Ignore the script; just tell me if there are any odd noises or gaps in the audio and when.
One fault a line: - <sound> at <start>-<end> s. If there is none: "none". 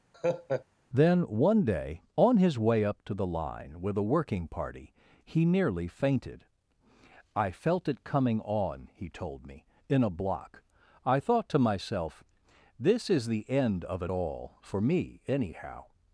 - laugh at 0.1-0.7 s